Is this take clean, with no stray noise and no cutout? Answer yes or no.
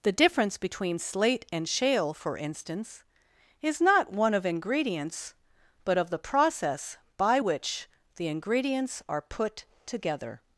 yes